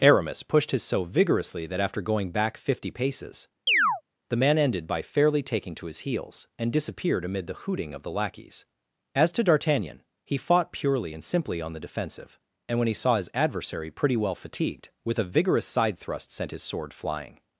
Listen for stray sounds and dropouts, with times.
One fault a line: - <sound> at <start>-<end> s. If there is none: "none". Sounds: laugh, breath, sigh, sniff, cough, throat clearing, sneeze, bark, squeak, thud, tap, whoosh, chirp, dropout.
- chirp at 3.7-4.0 s